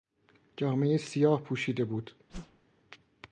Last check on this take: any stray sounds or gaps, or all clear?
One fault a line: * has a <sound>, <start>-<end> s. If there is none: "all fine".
* has a whoosh, 2.3-2.6 s